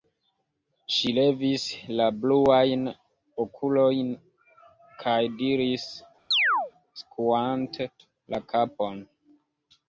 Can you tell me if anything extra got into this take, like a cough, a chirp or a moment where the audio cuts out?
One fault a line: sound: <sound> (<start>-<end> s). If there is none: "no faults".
sound: chirp (6.3-6.7 s)